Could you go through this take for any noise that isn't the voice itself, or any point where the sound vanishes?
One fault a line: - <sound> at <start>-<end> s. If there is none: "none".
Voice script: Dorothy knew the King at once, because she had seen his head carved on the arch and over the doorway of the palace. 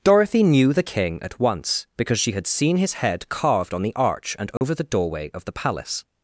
- dropout at 4.6-4.6 s